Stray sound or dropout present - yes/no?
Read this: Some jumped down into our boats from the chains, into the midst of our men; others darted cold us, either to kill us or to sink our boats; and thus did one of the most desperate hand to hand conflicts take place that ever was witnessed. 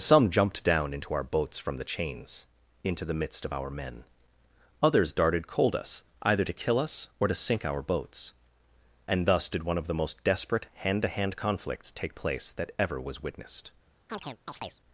yes